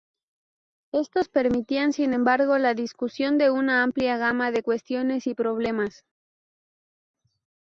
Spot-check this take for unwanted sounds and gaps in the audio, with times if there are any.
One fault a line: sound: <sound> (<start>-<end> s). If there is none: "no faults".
no faults